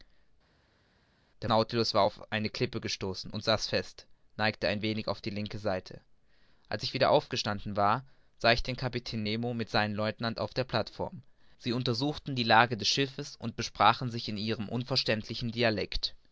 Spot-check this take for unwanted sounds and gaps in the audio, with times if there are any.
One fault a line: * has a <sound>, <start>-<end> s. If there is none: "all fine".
all fine